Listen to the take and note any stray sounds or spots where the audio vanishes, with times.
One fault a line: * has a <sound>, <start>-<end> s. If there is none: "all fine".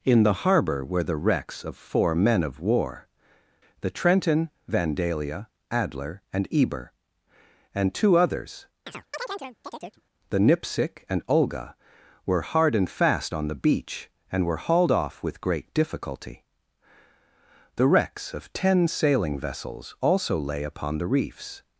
* has a chirp, 8.9-10.0 s